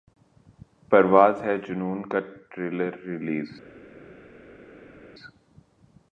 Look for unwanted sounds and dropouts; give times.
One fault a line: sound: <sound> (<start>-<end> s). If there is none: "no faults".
no faults